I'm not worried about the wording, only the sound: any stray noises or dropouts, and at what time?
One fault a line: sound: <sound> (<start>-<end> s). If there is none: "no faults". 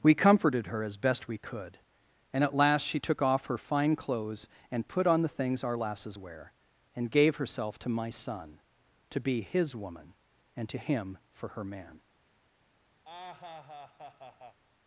sound: laugh (13.0-14.6 s)